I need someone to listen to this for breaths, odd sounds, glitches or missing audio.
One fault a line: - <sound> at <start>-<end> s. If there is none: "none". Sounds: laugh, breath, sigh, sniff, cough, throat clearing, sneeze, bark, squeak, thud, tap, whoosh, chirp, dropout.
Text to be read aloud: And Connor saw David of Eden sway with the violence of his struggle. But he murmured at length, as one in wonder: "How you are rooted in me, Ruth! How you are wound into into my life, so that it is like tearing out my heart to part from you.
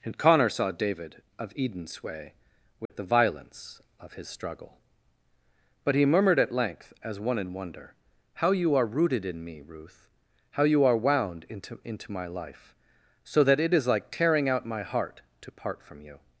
- dropout at 2.9-2.9 s